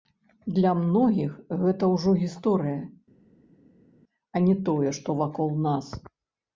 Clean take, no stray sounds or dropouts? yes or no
yes